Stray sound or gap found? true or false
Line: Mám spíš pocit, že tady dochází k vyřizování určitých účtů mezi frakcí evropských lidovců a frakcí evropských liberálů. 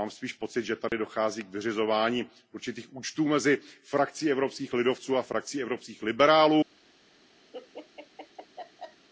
true